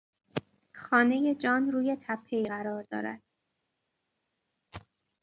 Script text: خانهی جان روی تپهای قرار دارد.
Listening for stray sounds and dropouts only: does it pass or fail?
pass